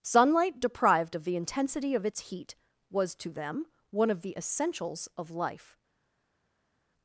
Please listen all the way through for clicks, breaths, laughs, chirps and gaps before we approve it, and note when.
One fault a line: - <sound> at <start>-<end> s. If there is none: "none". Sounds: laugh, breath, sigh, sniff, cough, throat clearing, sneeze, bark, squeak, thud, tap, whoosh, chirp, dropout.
none